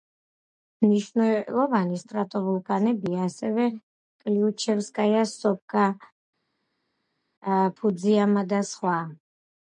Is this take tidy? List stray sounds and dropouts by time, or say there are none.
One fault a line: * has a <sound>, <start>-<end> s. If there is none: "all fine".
all fine